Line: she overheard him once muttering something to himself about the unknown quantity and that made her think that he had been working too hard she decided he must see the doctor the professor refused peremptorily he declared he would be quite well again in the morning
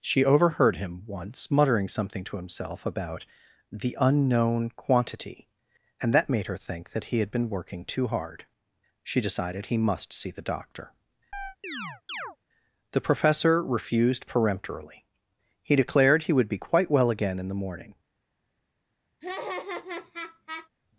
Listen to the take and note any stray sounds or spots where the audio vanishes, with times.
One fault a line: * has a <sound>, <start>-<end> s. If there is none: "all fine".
* has a chirp, 11.3-12.4 s
* has a laugh, 19.2-20.7 s